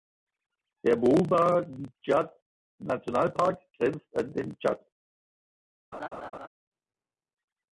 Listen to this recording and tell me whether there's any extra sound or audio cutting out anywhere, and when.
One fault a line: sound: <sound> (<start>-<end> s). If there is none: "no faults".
sound: laugh (5.9-6.5 s)